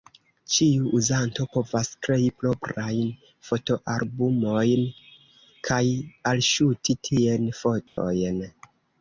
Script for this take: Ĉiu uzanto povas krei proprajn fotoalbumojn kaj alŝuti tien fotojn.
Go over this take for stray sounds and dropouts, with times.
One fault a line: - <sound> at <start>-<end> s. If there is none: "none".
- dropout at 7.9-8.0 s